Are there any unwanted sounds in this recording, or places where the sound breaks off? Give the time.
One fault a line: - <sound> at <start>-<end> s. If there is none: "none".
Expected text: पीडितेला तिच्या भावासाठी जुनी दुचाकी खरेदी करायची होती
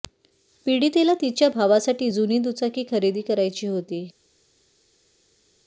none